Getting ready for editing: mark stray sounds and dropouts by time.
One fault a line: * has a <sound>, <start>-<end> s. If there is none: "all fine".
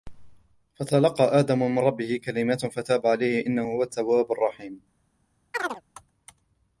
* has a chirp, 5.5-5.8 s